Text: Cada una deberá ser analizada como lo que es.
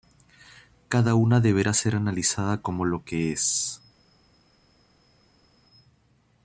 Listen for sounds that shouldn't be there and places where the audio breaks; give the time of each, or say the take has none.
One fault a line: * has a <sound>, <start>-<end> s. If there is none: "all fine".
all fine